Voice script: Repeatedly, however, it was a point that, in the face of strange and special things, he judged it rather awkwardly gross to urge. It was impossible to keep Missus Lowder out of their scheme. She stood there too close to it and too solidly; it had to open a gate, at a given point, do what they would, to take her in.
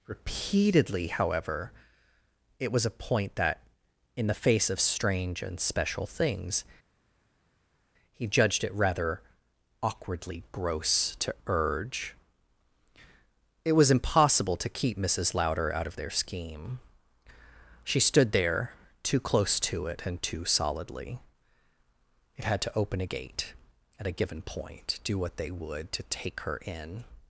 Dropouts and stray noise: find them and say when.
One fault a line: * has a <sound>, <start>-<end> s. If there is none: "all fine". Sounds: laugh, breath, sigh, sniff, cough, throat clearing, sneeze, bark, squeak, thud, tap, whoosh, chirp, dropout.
all fine